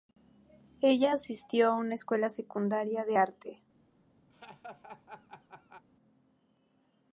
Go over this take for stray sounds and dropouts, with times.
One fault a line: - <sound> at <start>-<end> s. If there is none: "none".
- laugh at 4.3-5.9 s